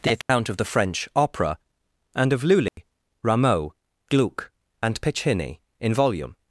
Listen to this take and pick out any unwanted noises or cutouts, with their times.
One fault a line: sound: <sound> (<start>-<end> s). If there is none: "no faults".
sound: dropout (0.2-0.3 s)
sound: dropout (2.7-2.8 s)